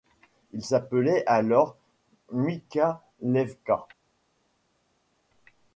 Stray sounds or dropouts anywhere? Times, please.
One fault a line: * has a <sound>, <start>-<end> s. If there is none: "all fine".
all fine